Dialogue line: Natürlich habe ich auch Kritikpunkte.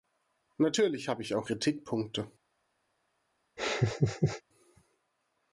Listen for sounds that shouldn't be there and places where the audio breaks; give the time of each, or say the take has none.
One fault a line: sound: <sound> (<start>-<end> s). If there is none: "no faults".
sound: laugh (3.6-4.4 s)